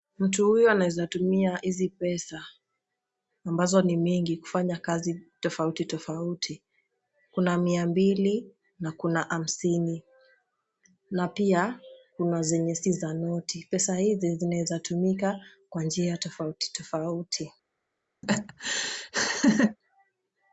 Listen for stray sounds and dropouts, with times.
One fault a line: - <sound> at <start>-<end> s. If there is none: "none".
- laugh at 18.2-19.8 s